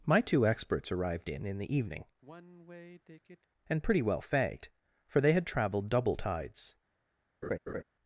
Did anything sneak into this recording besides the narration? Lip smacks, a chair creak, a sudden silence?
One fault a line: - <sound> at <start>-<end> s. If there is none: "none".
- sigh at 2.2-3.5 s
- laugh at 7.4-7.8 s